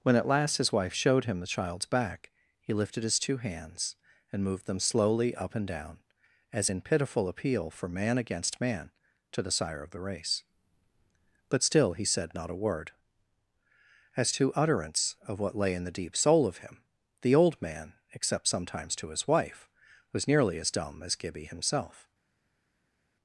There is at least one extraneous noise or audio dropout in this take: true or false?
false